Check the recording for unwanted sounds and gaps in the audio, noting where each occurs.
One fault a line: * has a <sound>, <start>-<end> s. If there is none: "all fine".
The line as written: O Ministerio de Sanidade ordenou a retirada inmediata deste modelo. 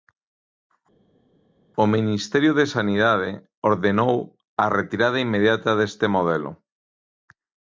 all fine